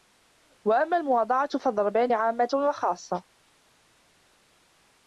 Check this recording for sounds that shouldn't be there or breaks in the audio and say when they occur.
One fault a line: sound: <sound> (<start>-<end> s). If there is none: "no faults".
no faults